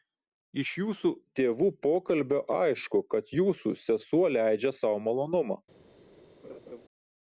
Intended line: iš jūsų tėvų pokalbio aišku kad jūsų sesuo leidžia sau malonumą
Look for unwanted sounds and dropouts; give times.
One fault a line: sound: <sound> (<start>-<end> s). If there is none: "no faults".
sound: laugh (6.4-6.8 s)